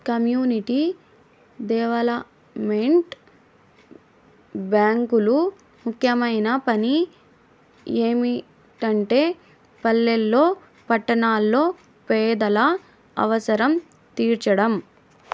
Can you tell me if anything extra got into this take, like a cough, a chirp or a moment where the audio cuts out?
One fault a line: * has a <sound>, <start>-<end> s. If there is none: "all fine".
all fine